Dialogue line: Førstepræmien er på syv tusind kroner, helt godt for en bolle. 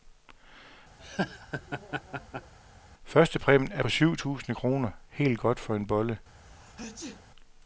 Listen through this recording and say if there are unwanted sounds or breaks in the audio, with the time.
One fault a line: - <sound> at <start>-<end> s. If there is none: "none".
- laugh at 1.0-2.5 s
- sneeze at 6.4-7.2 s